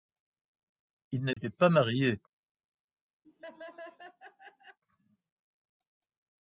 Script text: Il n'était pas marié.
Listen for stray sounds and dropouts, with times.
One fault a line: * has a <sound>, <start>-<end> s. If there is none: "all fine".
* has a dropout, 1.3-1.4 s
* has a laugh, 3.2-4.8 s